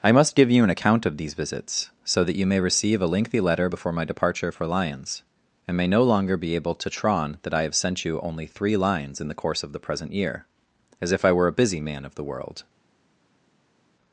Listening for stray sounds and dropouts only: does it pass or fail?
pass